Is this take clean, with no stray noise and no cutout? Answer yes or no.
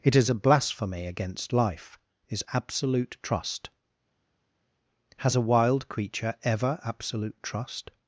yes